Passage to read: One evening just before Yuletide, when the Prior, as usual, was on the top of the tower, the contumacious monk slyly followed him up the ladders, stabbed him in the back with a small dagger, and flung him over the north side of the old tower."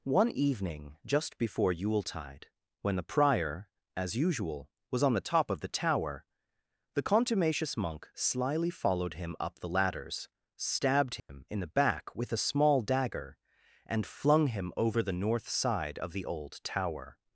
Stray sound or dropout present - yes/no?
yes